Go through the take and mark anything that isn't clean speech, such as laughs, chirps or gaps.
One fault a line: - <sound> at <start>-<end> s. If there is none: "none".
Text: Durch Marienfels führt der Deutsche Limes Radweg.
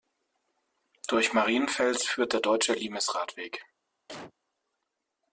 - cough at 4.1-4.3 s